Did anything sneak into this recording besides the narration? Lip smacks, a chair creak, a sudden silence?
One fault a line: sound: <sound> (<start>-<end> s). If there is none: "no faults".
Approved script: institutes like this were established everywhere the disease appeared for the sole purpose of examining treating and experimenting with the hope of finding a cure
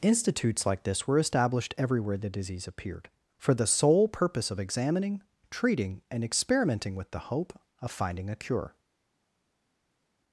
no faults